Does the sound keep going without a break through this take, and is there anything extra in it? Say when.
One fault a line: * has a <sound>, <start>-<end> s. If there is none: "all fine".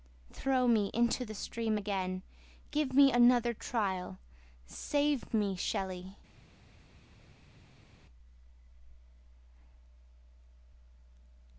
all fine